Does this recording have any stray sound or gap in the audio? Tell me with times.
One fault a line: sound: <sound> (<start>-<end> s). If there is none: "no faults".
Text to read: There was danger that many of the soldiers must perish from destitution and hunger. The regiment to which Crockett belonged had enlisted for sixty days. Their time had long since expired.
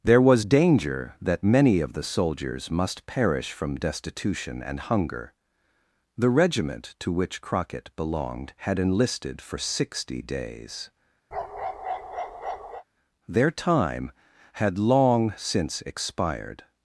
sound: bark (11.3-12.8 s)